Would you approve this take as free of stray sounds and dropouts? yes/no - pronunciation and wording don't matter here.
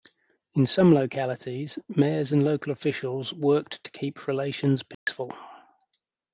no